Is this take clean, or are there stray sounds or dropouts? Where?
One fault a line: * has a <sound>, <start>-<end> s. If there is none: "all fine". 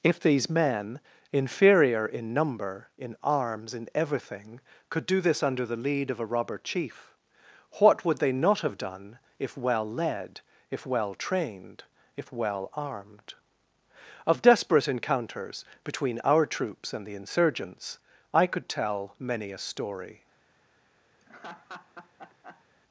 * has a laugh, 21.2-22.7 s